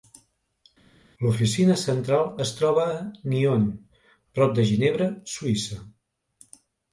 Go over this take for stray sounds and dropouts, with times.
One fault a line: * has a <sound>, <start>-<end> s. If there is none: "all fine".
all fine